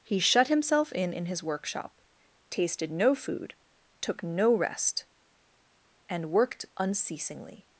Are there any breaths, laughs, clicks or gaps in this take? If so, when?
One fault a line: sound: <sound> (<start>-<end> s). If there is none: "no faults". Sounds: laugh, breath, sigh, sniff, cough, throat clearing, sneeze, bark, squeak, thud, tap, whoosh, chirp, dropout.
no faults